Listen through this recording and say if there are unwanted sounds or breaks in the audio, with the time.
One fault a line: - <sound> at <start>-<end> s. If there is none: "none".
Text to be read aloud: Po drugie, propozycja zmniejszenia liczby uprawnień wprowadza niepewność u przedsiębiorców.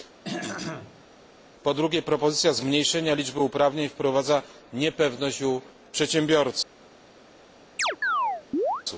- throat clearing at 0.2-1.0 s
- chirp at 7.8-8.8 s